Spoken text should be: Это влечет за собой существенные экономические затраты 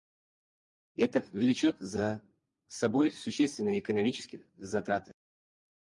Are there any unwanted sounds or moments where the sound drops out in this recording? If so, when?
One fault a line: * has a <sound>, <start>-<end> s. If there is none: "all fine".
all fine